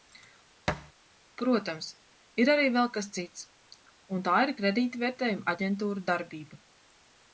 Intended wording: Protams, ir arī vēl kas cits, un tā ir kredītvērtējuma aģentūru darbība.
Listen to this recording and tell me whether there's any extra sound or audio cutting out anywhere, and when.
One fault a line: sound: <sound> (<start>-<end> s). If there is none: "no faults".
sound: thud (0.7-0.9 s)